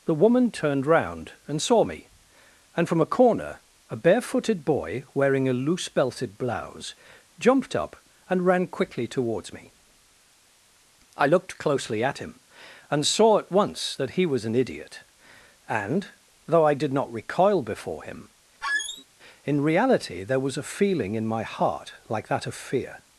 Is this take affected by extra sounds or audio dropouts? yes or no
yes